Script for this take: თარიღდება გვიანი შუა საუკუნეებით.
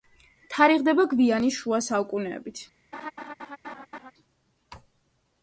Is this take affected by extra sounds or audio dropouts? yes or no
yes